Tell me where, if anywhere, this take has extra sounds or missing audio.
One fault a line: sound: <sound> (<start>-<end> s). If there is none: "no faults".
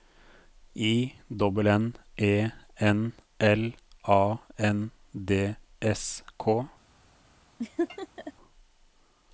sound: laugh (7.6-8.3 s)